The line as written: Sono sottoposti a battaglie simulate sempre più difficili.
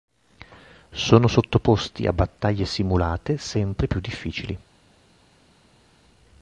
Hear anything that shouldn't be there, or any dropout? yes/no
no